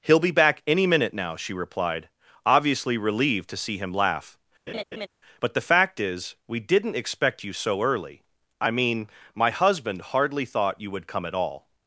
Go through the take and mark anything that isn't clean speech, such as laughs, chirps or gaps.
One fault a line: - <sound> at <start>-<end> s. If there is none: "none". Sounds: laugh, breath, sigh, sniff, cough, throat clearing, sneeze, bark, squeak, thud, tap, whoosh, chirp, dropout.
- laugh at 4.7-5.1 s